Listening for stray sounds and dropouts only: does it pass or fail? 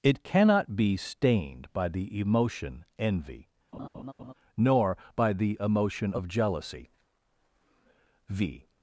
fail